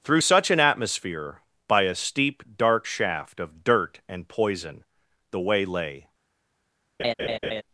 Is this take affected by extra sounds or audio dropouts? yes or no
yes